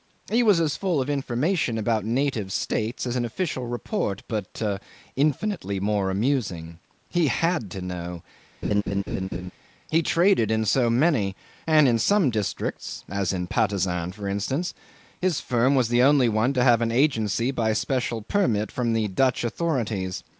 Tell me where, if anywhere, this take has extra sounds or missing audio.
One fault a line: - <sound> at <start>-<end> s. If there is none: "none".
- laugh at 8.6-9.5 s